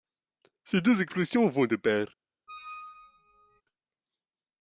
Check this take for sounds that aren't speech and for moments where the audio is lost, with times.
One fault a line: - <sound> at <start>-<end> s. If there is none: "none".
- squeak at 2.5-3.6 s